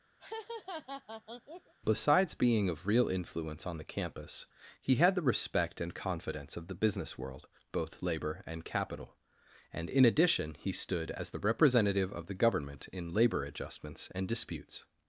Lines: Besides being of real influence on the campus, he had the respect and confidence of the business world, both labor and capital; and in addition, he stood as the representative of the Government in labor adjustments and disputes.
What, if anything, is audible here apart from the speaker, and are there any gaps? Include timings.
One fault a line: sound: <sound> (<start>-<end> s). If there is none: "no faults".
sound: laugh (0.2-1.7 s)